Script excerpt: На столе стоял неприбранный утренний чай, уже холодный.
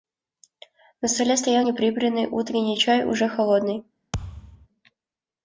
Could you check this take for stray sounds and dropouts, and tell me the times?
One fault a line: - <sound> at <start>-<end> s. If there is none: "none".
- thud at 4.1-4.7 s